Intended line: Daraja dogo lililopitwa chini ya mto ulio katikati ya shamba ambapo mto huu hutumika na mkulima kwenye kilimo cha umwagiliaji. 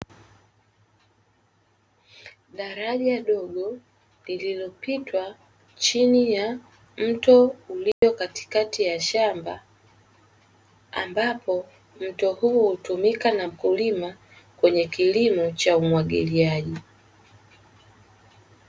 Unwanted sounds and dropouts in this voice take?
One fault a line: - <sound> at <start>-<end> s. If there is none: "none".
- dropout at 7.9-8.0 s